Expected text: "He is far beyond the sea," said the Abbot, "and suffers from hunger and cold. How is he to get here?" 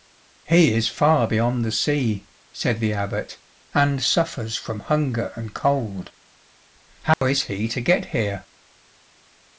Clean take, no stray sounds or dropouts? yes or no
no